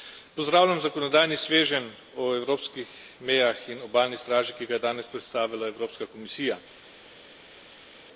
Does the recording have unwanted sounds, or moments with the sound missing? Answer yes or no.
no